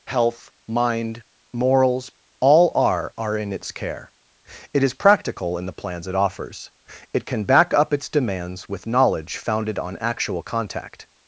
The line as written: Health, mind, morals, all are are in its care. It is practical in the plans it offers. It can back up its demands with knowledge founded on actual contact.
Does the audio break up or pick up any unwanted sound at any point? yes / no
no